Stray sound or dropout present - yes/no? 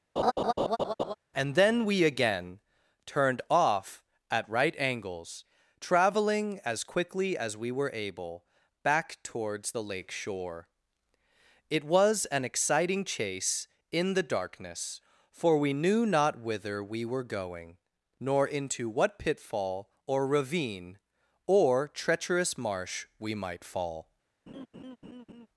yes